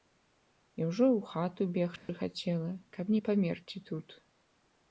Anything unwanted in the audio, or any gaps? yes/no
yes